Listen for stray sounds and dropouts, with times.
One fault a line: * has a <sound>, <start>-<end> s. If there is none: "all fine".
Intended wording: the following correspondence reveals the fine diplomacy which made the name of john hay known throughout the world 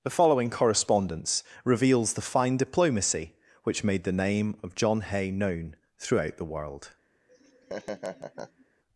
* has a laugh, 7.3-8.7 s